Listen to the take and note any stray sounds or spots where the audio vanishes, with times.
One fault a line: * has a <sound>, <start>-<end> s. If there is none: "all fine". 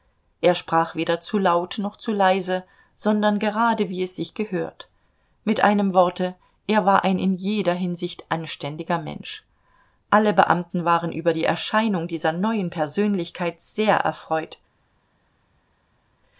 all fine